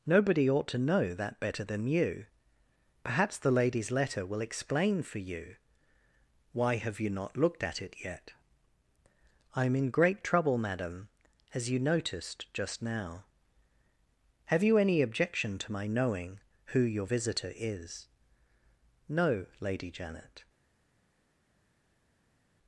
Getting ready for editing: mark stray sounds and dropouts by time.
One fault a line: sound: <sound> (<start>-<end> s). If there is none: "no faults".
no faults